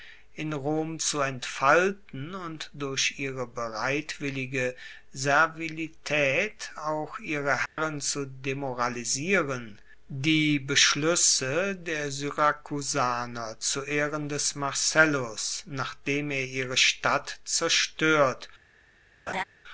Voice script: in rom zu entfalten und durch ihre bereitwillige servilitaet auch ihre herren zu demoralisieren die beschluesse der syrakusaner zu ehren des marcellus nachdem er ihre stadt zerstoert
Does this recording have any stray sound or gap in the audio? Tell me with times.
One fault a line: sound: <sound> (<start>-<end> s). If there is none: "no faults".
sound: dropout (7.7-7.8 s)
sound: laugh (19.3-19.4 s)